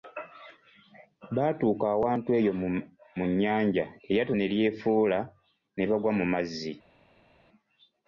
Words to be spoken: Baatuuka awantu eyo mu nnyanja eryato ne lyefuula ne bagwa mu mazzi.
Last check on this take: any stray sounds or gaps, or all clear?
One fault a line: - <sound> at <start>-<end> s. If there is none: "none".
none